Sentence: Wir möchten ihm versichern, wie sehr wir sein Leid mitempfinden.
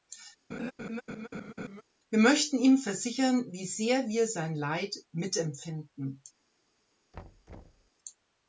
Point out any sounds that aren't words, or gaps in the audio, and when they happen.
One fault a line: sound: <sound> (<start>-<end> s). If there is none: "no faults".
sound: laugh (0.5-1.8 s)
sound: thud (7.1-7.9 s)